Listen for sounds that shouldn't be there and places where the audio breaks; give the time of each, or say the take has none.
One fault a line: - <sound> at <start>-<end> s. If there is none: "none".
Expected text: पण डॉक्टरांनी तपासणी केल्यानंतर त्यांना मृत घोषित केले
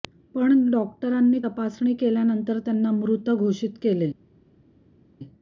none